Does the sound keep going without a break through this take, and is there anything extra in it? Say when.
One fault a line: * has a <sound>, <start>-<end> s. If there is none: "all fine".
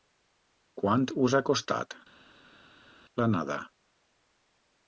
all fine